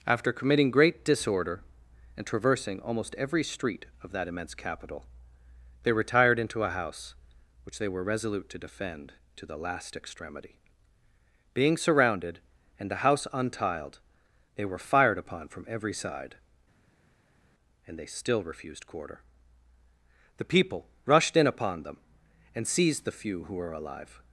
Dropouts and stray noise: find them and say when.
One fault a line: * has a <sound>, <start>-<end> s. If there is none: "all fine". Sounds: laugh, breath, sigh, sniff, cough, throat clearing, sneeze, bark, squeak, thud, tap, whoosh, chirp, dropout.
all fine